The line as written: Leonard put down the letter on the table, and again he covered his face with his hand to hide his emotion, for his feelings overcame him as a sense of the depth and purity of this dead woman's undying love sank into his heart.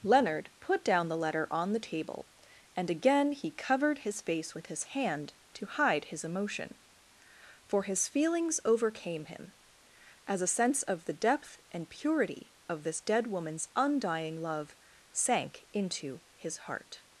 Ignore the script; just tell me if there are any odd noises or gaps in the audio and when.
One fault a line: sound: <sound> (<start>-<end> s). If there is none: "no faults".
no faults